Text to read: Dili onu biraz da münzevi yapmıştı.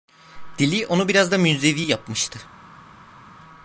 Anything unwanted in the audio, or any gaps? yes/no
no